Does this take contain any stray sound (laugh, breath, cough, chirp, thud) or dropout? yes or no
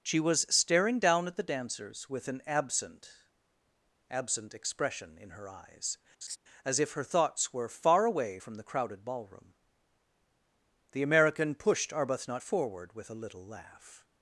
yes